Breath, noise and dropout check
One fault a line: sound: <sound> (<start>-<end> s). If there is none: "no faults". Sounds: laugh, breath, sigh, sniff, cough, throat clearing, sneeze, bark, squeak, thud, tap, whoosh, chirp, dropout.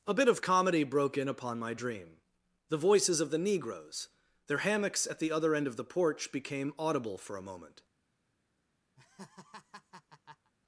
sound: laugh (9.0-10.5 s)